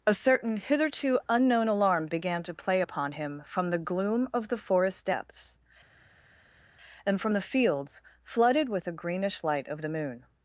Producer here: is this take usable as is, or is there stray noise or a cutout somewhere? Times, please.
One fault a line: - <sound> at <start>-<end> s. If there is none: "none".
none